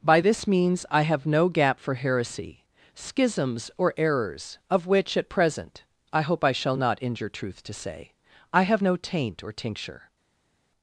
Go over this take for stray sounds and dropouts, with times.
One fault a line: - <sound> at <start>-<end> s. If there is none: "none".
none